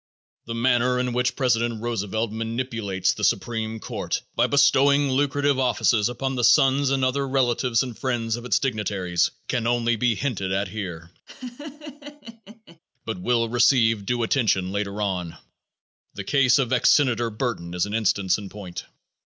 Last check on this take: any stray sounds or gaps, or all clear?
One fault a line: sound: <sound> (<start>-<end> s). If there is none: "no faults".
sound: laugh (11.3-12.8 s)